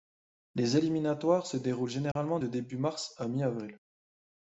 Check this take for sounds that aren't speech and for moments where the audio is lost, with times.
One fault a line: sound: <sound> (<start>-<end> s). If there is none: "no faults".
sound: dropout (2.1-2.2 s)